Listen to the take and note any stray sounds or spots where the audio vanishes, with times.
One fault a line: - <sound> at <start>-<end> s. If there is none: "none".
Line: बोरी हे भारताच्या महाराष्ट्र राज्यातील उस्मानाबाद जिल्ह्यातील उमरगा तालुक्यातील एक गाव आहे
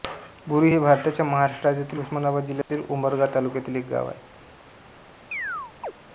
- dropout at 2.6-2.7 s
- chirp at 5.3-5.9 s